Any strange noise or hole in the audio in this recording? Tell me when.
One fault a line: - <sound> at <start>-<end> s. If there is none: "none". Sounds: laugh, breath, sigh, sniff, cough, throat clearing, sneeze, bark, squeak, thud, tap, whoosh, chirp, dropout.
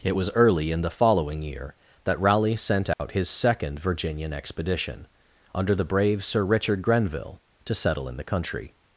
- dropout at 2.9-3.0 s